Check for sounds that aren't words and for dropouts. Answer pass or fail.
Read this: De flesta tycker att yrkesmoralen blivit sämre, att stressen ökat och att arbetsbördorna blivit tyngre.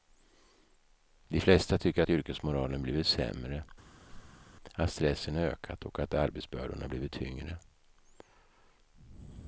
fail